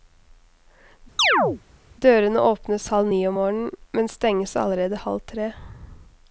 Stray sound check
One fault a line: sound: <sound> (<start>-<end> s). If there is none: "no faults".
sound: chirp (1.2-1.6 s)